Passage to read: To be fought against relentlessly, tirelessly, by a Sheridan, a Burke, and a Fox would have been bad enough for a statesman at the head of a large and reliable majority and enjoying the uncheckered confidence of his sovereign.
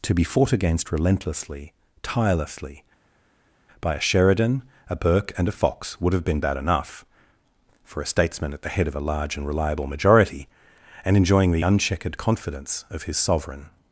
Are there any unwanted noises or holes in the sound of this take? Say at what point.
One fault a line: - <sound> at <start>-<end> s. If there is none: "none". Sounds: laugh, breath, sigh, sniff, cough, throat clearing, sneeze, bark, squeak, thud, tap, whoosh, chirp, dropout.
none